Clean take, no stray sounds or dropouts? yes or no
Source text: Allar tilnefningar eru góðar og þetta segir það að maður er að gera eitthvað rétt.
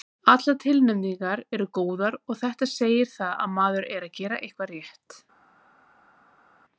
yes